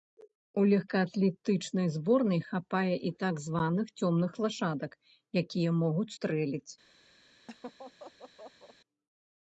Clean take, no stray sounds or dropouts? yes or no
no